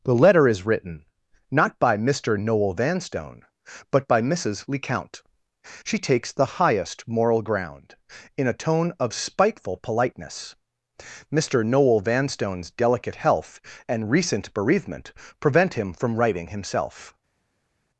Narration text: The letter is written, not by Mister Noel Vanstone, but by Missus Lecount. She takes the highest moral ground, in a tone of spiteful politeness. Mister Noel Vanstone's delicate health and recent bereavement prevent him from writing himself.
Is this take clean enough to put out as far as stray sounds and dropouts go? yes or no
yes